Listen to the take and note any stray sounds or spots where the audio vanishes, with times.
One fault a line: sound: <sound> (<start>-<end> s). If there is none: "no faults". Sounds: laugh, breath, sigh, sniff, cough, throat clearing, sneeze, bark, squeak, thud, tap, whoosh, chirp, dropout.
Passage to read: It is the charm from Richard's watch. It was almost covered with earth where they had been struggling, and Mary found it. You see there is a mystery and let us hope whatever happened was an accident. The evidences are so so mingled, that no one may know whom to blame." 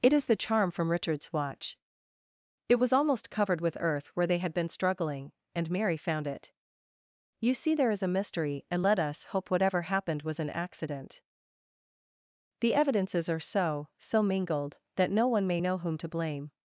no faults